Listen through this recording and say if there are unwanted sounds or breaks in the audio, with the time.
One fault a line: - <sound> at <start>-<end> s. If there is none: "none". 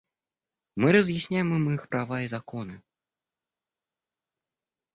none